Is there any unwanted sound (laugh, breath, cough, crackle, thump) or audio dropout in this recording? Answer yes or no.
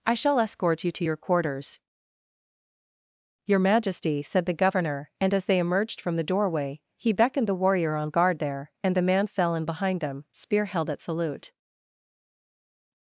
no